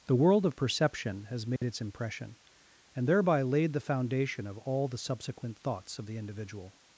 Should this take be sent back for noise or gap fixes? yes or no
yes